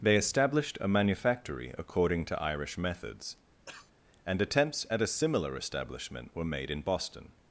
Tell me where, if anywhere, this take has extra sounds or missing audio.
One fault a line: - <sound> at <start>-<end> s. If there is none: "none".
- cough at 3.7-3.9 s